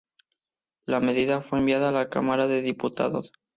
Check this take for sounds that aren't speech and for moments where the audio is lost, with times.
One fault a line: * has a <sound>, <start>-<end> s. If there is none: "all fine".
all fine